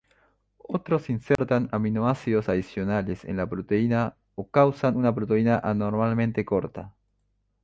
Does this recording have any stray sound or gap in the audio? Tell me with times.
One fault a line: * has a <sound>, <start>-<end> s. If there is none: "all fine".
* has a dropout, 1.4-1.4 s